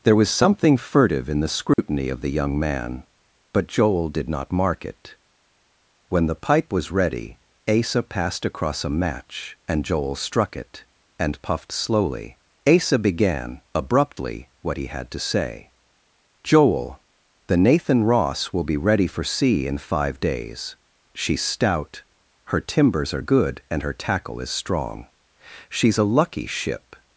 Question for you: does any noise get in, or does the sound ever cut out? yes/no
yes